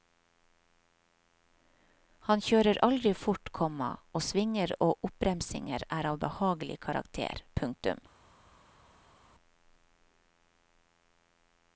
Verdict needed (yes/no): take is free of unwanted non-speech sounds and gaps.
yes